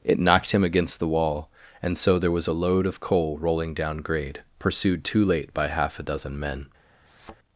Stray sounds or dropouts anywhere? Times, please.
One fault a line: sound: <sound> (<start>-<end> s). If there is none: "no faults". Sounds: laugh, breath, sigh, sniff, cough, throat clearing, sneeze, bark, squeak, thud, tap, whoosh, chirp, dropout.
sound: thud (7.1-7.4 s)